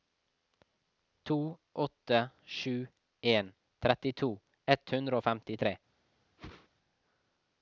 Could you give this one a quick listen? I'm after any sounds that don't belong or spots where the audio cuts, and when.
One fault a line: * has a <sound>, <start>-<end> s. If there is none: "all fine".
* has a whoosh, 6.4-6.7 s